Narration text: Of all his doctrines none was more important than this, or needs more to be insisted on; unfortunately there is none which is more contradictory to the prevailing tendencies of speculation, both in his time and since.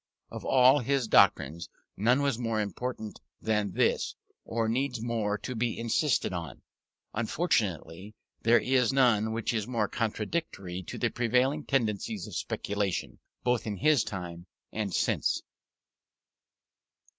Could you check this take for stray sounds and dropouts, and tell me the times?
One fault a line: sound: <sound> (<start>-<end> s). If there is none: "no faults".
no faults